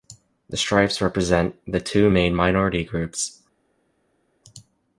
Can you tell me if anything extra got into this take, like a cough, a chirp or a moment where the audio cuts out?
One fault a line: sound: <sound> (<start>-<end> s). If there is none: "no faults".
no faults